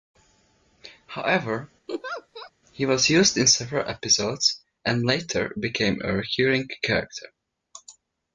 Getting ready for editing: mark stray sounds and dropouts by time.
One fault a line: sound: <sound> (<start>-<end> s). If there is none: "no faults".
sound: laugh (1.9-2.5 s)